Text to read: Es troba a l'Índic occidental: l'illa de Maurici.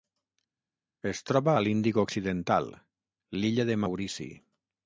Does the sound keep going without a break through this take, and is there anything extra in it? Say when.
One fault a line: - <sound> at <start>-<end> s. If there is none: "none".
none